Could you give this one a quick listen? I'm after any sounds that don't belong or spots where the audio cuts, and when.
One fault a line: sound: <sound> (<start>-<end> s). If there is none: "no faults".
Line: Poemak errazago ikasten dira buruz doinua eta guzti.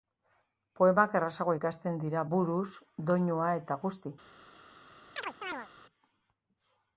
sound: chirp (5.2-5.7 s)